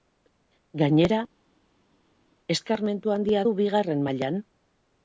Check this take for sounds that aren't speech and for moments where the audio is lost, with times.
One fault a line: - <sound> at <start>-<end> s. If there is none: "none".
none